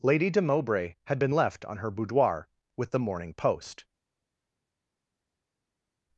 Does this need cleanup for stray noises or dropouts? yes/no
no